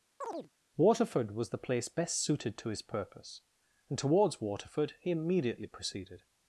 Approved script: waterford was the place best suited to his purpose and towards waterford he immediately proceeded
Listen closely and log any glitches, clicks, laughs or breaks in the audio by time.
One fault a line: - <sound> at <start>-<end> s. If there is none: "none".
- chirp at 0.2-0.5 s